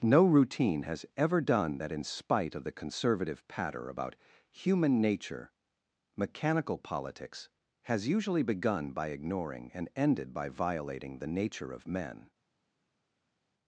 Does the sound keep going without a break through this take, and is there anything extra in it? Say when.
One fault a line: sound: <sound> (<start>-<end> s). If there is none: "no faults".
no faults